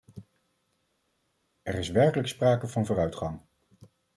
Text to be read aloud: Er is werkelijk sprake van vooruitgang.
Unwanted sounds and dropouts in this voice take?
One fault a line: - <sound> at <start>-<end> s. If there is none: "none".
none